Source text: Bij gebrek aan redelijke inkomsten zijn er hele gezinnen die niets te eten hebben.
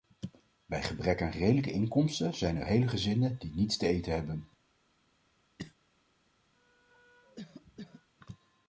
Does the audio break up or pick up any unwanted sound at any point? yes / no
yes